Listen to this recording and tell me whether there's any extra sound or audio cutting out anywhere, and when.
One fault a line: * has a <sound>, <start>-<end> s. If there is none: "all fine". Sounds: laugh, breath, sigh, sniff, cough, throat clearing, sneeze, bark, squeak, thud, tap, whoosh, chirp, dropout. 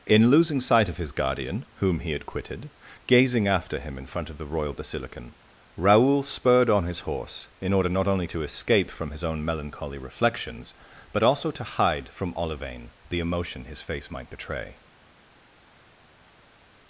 all fine